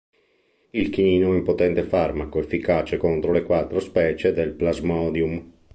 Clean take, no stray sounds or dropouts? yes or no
yes